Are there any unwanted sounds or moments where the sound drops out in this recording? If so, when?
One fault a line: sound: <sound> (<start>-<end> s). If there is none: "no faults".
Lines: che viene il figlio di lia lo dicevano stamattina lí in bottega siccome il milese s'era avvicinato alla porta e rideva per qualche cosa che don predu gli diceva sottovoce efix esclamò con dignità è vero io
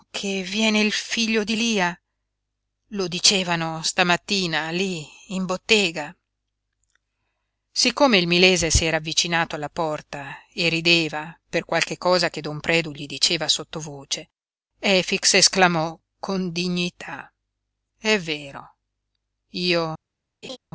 sound: laugh (20.4-20.6 s)